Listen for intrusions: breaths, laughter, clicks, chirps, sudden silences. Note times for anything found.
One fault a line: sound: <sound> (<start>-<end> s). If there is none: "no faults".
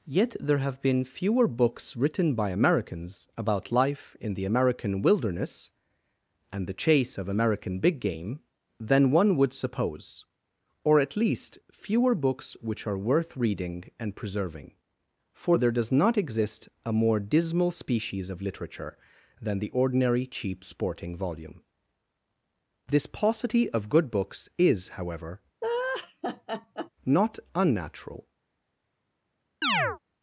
sound: laugh (25.6-26.9 s)
sound: chirp (29.6-30.0 s)